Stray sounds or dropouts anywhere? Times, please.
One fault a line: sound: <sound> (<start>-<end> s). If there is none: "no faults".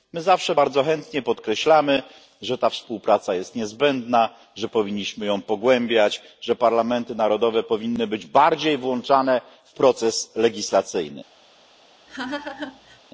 sound: laugh (12.1-13.0 s)